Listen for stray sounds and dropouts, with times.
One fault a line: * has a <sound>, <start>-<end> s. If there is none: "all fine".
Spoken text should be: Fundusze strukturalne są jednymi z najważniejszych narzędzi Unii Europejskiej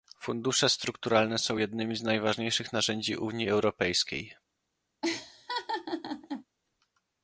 * has a laugh, 5.0-6.4 s